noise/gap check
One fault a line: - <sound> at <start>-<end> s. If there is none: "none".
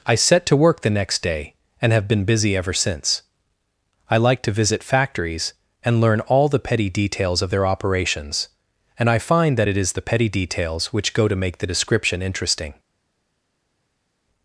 none